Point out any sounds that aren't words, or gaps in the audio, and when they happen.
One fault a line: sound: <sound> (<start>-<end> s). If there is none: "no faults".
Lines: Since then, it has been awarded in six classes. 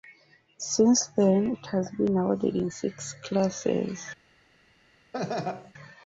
sound: laugh (5.1-5.7 s)